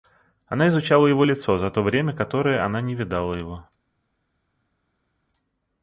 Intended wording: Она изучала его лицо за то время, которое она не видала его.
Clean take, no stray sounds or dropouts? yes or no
yes